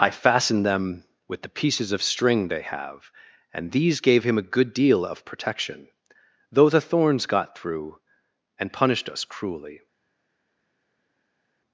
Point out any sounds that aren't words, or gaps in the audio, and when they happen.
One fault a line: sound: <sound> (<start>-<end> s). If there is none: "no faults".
no faults